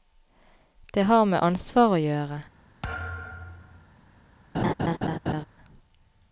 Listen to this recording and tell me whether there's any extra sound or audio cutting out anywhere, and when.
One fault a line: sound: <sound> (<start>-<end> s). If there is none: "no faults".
sound: thud (2.8-3.9 s)
sound: laugh (4.5-5.5 s)